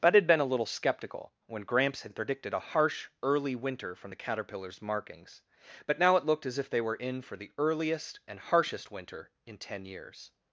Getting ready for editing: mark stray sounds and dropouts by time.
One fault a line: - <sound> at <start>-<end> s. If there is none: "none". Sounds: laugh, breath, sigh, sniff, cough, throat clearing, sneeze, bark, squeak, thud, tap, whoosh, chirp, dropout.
none